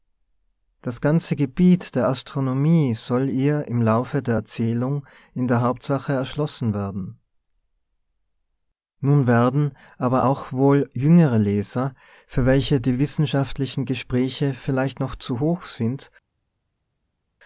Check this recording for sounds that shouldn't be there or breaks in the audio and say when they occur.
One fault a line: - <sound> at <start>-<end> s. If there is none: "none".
none